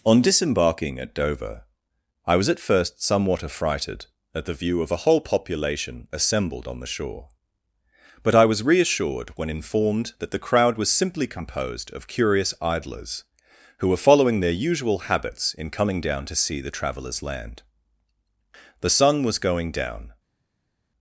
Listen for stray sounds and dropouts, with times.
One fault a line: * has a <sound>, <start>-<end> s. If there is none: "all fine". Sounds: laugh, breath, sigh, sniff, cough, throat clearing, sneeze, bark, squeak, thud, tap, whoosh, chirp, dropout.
all fine